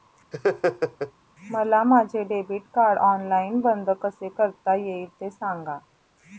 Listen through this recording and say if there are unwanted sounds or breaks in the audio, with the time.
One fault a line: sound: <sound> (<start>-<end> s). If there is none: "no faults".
sound: laugh (0.3-1.1 s)